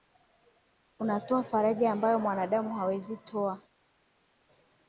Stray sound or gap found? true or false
false